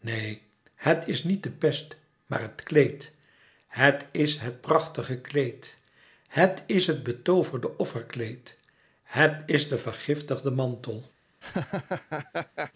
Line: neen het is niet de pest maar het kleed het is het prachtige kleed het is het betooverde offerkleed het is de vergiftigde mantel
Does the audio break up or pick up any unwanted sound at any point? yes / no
yes